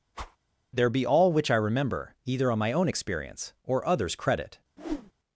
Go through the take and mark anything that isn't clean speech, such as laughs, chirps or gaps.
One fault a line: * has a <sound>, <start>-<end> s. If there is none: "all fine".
* has a whoosh, 0.1-0.4 s
* has a whoosh, 4.8-5.1 s